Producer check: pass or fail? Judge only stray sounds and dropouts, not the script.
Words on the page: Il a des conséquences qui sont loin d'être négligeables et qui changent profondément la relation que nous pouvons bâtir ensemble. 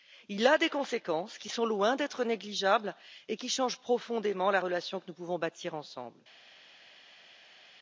pass